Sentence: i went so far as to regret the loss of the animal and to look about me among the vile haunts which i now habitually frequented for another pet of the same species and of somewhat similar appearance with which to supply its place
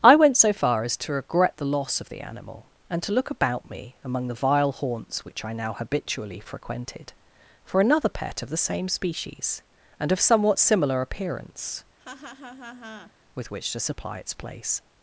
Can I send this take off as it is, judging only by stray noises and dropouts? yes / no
no